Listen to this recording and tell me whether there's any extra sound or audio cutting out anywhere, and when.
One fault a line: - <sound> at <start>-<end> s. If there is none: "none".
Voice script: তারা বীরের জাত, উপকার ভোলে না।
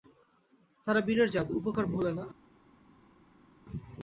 none